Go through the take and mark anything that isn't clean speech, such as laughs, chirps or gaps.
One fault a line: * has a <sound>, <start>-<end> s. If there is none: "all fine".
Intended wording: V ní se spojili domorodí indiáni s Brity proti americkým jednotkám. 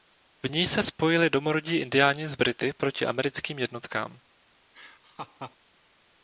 * has a laugh, 4.7-5.6 s